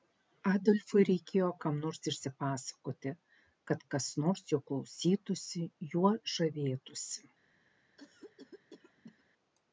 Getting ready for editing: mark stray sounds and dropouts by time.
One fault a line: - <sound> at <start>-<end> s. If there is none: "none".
- cough at 8.0-9.2 s